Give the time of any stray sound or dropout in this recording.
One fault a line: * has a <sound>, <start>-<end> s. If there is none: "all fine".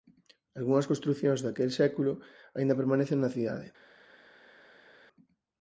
all fine